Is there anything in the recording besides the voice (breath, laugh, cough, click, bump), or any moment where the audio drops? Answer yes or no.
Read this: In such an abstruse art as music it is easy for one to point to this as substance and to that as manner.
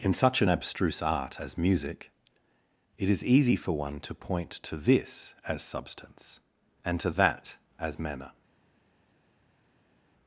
no